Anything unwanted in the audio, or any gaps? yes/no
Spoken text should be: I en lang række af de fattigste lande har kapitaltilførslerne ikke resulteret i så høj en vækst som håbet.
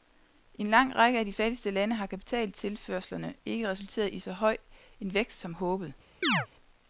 yes